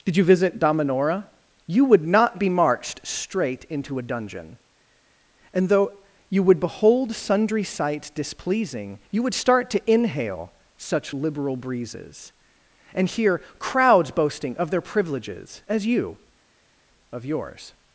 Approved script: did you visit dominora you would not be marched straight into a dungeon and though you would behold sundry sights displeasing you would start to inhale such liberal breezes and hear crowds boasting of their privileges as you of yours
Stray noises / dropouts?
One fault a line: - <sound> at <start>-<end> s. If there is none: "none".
none